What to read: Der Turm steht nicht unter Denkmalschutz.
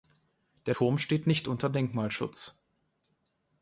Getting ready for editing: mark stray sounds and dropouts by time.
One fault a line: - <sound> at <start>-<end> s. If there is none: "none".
none